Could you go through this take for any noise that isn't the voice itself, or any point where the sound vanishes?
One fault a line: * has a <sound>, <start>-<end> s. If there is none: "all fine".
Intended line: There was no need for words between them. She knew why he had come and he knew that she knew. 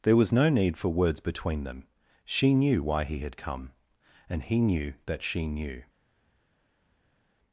all fine